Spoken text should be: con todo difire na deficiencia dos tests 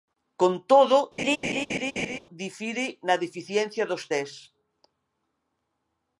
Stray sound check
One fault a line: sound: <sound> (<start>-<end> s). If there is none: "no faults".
sound: laugh (1.2-2.2 s)